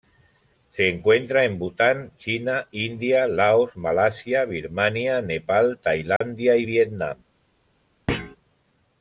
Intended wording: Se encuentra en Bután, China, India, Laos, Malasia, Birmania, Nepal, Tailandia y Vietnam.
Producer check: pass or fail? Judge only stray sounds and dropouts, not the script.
fail